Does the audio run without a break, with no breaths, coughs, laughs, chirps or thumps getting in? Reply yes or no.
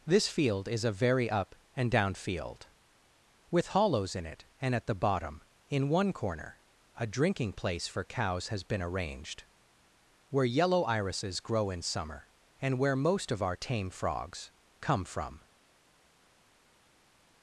yes